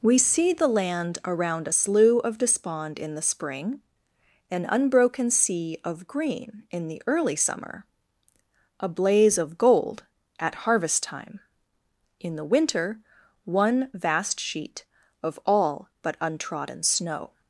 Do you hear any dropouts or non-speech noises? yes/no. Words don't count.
no